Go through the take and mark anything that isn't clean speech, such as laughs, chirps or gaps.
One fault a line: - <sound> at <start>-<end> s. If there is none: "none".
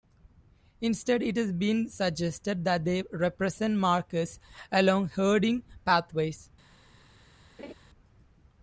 - laugh at 7.6-7.7 s